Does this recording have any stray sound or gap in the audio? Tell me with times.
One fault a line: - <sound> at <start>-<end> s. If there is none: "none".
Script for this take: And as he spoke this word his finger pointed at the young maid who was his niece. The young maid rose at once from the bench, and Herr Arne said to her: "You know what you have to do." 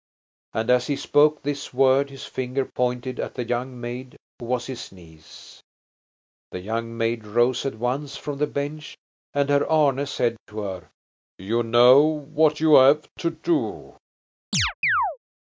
- chirp at 14.5-15.2 s